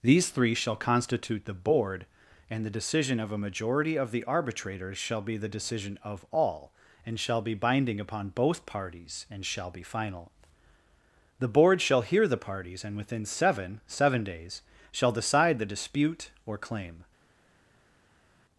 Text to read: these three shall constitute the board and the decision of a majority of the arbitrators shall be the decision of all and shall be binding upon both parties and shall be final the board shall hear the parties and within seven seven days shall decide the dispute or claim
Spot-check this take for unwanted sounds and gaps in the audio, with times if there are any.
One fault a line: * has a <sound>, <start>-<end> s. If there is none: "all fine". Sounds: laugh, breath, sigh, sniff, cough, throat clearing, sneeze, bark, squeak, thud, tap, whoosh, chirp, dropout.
all fine